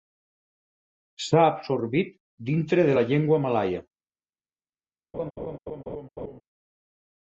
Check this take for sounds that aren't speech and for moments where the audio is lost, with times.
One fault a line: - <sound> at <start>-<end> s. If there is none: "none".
- laugh at 5.1-6.4 s